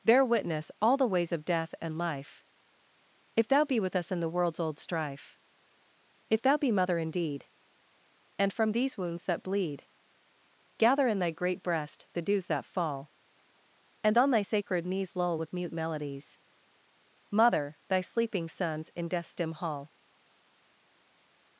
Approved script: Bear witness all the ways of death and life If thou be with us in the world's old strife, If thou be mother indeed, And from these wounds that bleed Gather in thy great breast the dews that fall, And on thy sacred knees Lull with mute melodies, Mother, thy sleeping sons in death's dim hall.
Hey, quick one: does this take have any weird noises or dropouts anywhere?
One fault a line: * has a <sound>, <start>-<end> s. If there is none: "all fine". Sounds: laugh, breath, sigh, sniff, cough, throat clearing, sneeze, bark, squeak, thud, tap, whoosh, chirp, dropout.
all fine